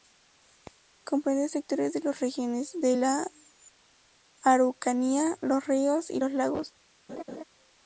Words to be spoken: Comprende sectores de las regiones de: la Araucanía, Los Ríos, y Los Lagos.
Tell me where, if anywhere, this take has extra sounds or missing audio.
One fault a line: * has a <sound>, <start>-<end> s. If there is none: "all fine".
* has a laugh, 7.1-7.4 s